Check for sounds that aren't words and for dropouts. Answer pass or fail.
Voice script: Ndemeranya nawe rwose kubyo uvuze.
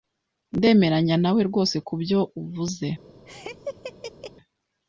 fail